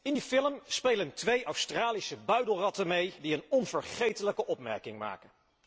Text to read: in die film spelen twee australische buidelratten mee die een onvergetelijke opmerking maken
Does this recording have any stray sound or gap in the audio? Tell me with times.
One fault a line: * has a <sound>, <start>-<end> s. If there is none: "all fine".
all fine